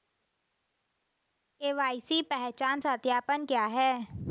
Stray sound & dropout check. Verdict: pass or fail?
pass